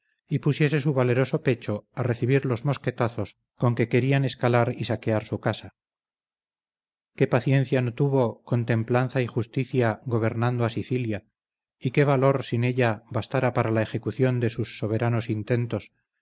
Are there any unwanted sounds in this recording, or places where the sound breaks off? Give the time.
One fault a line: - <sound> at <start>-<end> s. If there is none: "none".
none